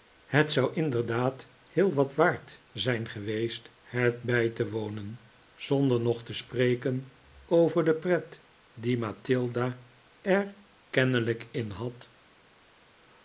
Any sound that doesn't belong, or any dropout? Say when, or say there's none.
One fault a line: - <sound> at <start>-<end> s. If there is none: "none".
none